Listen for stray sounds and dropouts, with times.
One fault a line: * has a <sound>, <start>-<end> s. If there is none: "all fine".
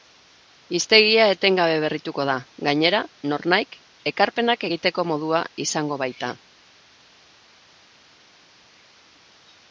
all fine